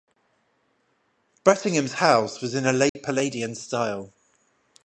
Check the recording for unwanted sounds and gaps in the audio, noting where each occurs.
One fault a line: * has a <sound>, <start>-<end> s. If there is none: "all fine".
* has a dropout, 2.9-3.0 s